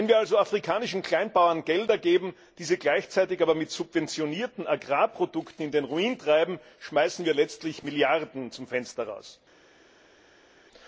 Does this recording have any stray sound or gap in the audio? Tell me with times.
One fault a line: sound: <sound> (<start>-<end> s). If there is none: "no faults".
no faults